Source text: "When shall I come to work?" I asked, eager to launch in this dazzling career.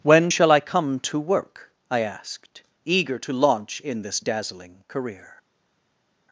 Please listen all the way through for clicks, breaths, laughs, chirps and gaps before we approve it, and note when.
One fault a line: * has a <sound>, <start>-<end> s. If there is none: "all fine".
all fine